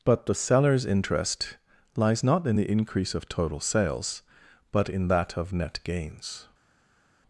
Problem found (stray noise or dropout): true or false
false